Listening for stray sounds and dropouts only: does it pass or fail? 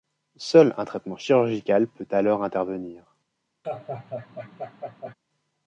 fail